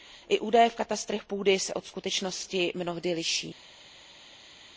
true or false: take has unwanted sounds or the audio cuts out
false